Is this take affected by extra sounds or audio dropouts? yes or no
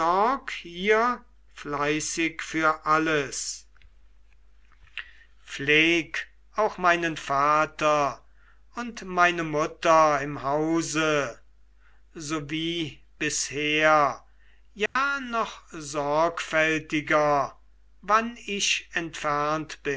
yes